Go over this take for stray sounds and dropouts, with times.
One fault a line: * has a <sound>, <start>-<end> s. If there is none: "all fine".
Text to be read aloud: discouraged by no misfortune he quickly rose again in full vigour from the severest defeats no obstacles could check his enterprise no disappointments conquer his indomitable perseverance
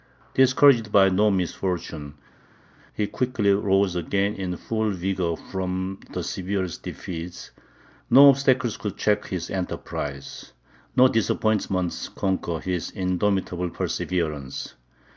all fine